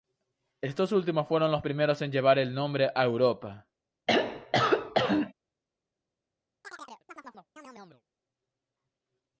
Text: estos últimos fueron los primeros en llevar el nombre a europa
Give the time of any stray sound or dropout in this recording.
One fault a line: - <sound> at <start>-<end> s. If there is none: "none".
- throat clearing at 4.1-5.3 s
- chirp at 6.6-8.0 s